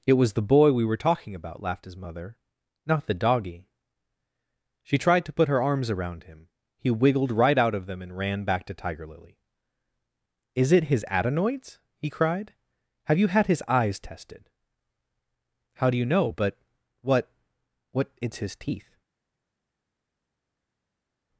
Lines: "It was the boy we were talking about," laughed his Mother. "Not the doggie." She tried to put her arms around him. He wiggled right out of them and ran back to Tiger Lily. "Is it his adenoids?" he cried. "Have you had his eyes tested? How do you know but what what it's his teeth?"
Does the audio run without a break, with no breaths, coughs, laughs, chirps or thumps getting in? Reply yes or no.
yes